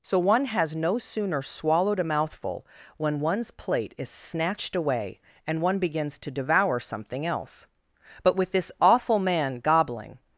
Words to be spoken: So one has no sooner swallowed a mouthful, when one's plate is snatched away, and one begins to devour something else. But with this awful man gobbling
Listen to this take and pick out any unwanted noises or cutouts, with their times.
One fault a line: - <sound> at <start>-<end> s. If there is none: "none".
none